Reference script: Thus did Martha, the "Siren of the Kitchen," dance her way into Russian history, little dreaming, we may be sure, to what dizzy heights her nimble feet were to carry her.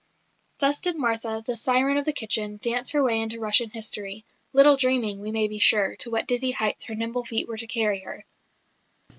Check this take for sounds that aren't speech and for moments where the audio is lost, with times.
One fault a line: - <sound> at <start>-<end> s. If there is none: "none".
none